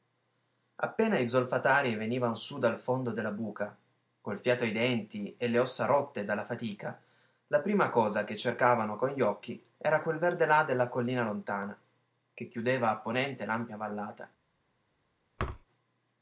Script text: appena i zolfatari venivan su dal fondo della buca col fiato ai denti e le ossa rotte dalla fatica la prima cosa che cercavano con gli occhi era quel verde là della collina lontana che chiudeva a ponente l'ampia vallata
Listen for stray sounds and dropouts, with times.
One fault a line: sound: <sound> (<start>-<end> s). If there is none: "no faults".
sound: thud (15.4-15.7 s)